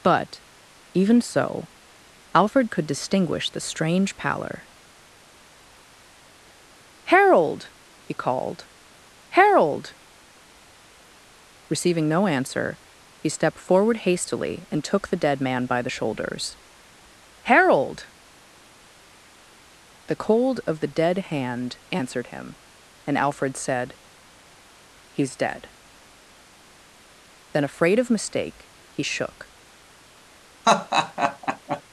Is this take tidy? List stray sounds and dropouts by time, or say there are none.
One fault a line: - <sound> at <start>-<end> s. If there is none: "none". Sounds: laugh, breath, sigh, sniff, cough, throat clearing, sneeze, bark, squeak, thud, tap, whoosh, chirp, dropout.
- laugh at 30.6-31.8 s